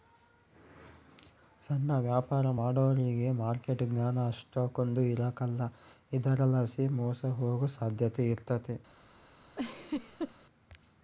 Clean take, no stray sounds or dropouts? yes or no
no